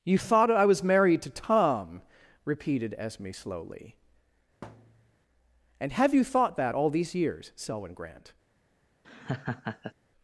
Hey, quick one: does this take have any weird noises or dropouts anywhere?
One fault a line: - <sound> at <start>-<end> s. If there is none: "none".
- thud at 4.6-5.2 s
- laugh at 9.0-9.9 s